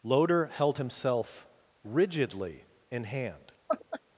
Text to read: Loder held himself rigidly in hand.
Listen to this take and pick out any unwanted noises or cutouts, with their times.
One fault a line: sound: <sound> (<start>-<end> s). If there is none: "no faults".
sound: laugh (3.7-4.0 s)